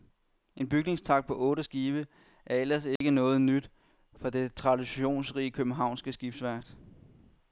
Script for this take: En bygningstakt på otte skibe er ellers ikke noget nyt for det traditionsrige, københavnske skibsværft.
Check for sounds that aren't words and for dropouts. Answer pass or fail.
fail